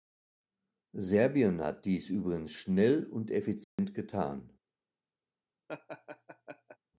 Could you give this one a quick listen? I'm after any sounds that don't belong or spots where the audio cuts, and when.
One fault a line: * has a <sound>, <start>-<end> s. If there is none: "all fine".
* has a dropout, 3.6-3.8 s
* has a laugh, 5.7-6.8 s